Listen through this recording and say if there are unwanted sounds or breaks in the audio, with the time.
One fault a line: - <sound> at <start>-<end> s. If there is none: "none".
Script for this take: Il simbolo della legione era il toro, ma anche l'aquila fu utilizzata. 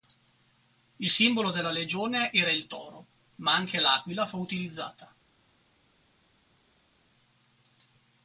none